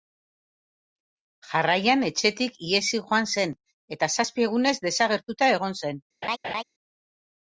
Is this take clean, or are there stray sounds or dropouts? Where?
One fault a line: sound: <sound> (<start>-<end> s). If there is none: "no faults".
sound: laugh (6.2-6.6 s)